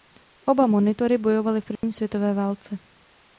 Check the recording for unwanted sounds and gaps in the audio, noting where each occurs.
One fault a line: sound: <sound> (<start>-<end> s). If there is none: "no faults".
sound: dropout (1.8-1.8 s)